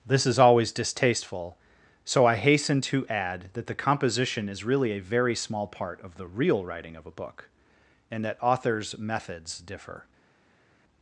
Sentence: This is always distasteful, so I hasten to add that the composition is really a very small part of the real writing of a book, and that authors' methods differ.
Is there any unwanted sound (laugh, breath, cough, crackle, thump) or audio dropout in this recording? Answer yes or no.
no